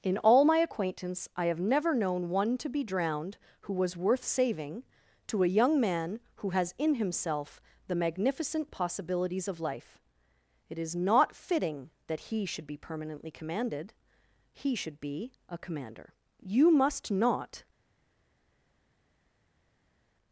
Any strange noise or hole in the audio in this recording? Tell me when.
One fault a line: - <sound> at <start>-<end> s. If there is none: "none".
none